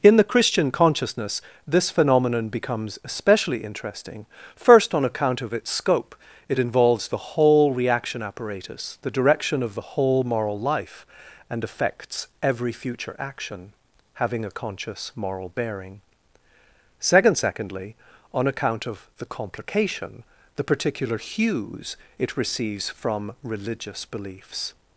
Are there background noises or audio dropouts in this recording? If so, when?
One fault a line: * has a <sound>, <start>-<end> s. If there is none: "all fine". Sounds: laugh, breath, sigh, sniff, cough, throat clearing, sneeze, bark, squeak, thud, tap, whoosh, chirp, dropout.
all fine